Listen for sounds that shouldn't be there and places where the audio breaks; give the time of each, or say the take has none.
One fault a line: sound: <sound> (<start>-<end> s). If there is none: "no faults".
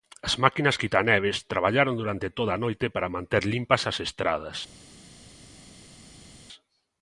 no faults